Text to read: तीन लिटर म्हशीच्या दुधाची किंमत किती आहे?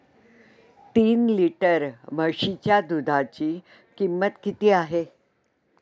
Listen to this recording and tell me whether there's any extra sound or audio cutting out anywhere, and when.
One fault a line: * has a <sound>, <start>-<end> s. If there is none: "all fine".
all fine